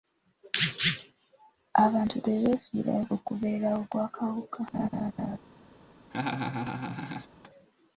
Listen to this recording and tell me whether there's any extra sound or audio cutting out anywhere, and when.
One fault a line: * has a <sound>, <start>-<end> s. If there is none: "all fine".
* has a laugh, 4.7-5.4 s
* has a laugh, 6.1-7.3 s